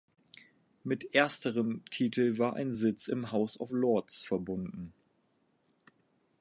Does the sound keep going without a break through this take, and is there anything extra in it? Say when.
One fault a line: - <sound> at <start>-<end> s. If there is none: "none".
none